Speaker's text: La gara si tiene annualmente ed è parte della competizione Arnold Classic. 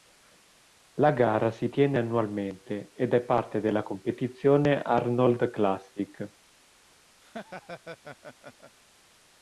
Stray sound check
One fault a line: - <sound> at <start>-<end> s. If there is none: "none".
- laugh at 7.2-8.7 s